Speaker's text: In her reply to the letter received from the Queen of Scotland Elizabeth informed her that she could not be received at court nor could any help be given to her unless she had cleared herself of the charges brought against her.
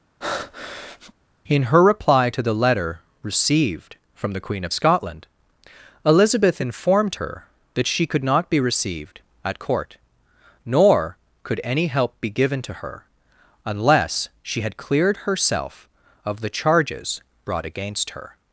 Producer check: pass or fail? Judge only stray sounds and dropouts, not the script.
fail